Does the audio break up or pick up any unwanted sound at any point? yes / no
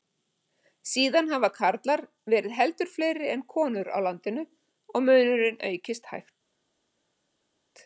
no